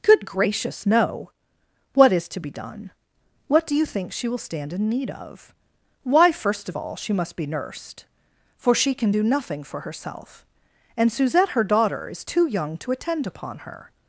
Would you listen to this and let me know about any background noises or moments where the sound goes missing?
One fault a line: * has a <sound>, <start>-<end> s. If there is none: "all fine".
all fine